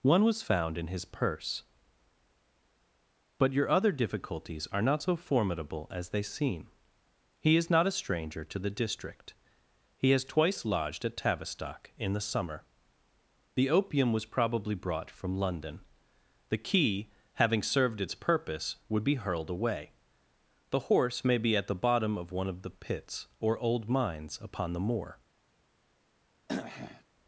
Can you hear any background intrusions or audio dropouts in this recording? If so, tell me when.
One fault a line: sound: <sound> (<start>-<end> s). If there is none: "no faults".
sound: throat clearing (26.5-27.0 s)